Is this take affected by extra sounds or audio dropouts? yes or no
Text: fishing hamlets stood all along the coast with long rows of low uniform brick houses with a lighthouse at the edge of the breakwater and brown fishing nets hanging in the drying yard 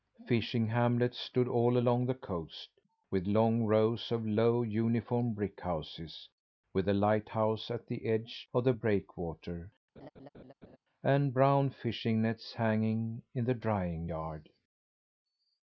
yes